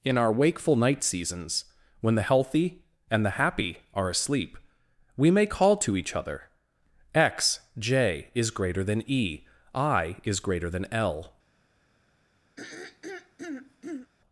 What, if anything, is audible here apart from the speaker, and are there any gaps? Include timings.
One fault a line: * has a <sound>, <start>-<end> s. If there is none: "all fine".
* has a throat clearing, 12.6-14.1 s